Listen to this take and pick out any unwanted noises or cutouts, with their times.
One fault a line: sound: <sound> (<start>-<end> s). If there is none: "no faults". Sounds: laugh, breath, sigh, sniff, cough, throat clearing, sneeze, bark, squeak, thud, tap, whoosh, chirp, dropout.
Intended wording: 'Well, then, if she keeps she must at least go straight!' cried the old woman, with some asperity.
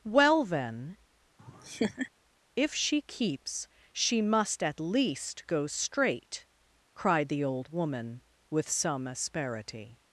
sound: laugh (1.4-2.1 s)